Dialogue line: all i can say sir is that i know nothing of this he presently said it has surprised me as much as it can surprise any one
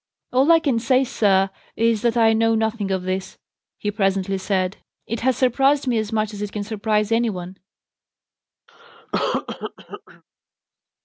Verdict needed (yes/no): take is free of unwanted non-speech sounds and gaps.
no